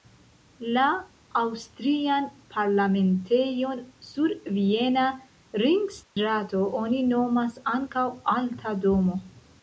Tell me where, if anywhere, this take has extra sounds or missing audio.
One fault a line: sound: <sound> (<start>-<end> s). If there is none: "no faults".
sound: dropout (6.0-6.2 s)